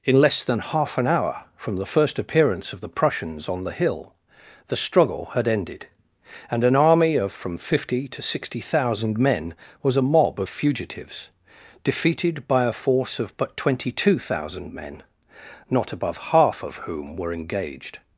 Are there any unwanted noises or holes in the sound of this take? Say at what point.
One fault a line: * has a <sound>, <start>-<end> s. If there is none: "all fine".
all fine